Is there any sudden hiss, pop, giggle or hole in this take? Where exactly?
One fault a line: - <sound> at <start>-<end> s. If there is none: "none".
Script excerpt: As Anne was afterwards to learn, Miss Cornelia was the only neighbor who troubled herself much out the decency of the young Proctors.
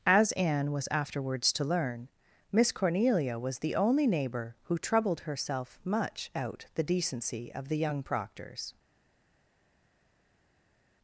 none